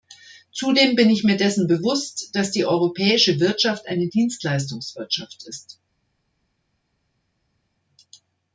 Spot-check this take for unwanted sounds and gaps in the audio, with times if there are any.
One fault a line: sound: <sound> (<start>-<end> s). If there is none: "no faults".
no faults